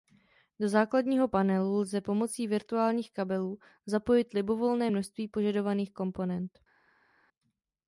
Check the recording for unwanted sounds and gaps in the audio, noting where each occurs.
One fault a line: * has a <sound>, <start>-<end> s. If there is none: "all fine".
all fine